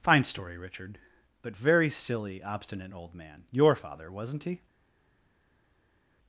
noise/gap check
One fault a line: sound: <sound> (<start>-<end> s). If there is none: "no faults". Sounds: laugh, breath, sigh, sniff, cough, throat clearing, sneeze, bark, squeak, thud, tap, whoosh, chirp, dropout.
no faults